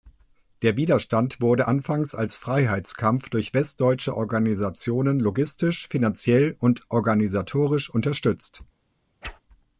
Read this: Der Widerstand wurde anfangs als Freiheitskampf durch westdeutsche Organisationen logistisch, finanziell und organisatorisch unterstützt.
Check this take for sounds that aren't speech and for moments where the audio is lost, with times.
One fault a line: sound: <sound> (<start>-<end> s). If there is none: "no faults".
sound: whoosh (9.2-9.4 s)